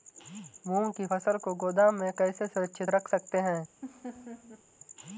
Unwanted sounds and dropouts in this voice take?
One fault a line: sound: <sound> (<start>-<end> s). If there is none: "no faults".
sound: laugh (3.8-4.6 s)